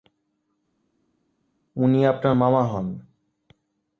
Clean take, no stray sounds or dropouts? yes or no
yes